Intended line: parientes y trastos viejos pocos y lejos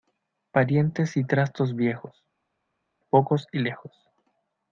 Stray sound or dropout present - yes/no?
no